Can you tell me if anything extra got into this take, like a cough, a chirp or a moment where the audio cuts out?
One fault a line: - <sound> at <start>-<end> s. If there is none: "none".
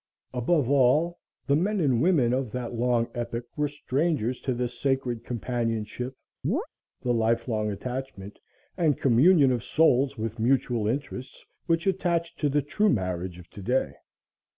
- chirp at 6.4-6.7 s